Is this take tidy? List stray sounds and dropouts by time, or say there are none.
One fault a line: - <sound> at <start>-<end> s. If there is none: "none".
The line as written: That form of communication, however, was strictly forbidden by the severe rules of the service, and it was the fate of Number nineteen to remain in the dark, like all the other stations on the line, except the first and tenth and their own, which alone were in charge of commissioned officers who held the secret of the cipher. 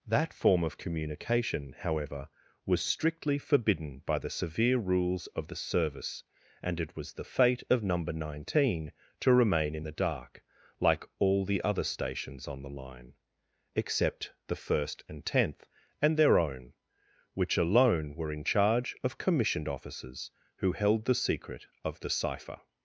none